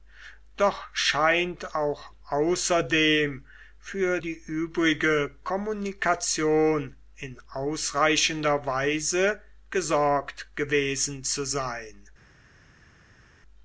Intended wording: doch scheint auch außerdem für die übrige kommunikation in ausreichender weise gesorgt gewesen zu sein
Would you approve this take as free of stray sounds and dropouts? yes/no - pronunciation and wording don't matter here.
yes